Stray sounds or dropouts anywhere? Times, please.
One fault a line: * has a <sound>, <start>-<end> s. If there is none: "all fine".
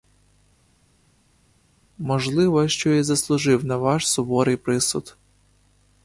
all fine